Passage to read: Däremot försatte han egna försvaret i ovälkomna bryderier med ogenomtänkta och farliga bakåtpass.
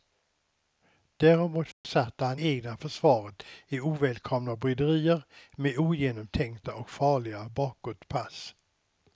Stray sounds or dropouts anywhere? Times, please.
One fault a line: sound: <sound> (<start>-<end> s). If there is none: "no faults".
sound: dropout (1.7-1.8 s)